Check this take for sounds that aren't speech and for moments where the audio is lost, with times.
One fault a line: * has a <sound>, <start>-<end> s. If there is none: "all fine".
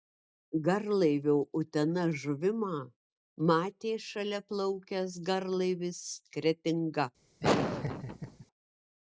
* has a laugh, 7.4-8.5 s